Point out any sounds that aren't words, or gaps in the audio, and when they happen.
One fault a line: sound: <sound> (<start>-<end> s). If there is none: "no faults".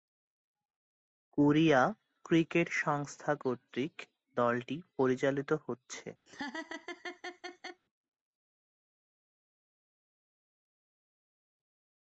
sound: laugh (6.3-7.8 s)